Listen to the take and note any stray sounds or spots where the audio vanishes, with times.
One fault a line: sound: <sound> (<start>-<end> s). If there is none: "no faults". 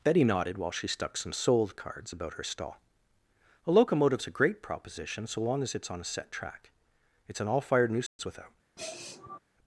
sound: dropout (8.1-8.2 s)
sound: sniff (8.8-9.4 s)